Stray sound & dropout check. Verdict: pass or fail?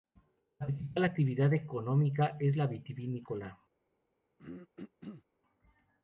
fail